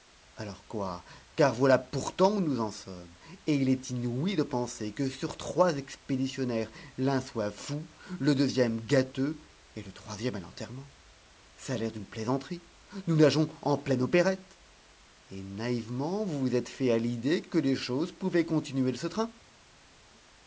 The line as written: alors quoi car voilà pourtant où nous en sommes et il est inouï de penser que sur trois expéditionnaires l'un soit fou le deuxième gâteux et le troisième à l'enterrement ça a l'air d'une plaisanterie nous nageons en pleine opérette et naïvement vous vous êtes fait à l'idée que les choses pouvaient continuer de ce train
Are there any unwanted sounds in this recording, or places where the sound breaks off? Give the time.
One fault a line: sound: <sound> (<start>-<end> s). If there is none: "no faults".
no faults